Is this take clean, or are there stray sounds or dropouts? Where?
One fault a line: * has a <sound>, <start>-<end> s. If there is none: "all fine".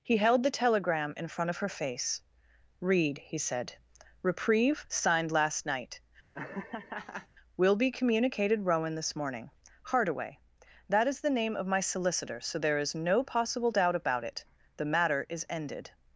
* has a laugh, 6.3-7.3 s